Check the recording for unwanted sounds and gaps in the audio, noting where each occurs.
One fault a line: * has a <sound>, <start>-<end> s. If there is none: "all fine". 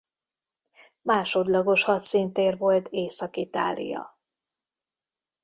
all fine